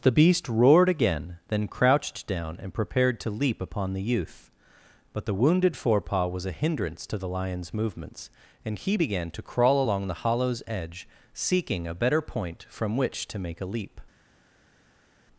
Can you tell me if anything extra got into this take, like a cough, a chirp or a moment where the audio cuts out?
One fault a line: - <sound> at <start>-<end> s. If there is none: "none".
none